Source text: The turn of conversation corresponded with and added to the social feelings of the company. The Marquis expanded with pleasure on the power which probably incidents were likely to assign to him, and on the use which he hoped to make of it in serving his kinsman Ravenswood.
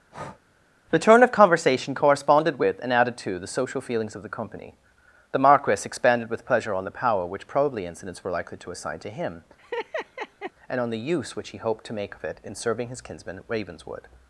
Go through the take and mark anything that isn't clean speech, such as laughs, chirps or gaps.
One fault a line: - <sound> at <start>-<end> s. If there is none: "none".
- breath at 0.1-0.4 s
- laugh at 9.6-10.5 s